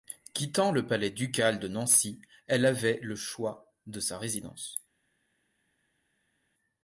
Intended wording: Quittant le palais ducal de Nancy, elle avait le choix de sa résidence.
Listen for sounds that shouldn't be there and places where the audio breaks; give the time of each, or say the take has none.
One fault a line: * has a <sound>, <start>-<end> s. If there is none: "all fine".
all fine